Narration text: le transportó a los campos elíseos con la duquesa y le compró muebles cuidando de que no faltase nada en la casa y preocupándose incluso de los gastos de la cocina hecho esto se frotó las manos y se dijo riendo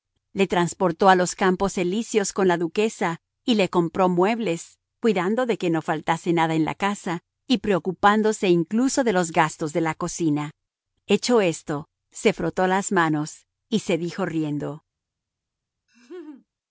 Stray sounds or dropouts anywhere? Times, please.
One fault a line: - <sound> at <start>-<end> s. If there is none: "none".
- laugh at 15.9-16.5 s